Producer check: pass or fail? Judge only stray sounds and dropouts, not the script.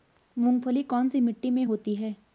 pass